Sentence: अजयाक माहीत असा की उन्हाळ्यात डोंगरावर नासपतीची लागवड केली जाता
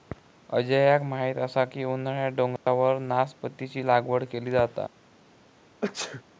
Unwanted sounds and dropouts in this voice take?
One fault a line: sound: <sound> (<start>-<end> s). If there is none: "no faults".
sound: dropout (2.6-2.7 s)
sound: sneeze (5.8-6.2 s)